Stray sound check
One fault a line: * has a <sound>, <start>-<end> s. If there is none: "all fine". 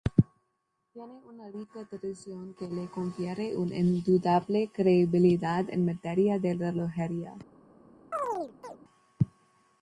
* has a chirp, 8.1-8.8 s